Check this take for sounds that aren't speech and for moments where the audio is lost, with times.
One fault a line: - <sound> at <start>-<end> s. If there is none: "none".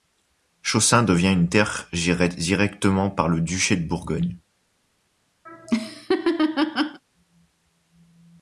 - laugh at 5.5-7.0 s